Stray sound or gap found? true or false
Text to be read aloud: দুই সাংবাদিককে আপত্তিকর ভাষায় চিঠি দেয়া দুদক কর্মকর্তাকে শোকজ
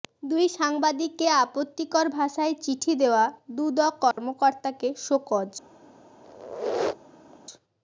true